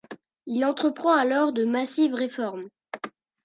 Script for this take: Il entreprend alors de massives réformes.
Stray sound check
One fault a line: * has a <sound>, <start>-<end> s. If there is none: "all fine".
all fine